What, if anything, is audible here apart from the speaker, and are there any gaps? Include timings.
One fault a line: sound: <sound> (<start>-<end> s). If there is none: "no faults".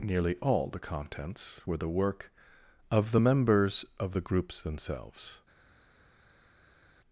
no faults